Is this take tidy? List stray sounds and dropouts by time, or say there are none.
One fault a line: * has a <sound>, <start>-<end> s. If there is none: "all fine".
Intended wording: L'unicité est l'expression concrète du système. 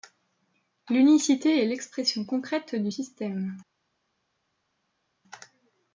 all fine